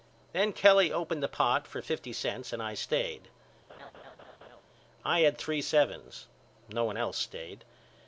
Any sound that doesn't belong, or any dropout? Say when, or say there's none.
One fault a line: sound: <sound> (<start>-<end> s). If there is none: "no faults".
sound: laugh (3.7-4.6 s)